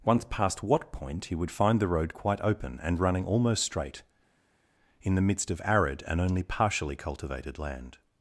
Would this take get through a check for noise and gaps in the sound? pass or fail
pass